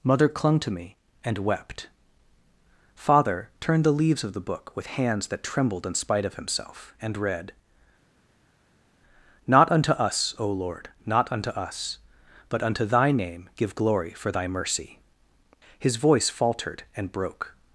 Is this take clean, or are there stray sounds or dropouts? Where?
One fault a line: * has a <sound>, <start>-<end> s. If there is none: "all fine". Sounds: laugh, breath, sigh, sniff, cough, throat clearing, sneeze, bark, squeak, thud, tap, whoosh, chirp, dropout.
all fine